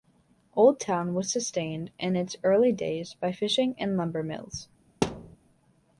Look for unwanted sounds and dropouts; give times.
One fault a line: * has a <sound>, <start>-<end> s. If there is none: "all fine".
* has a thud, 5.0-5.4 s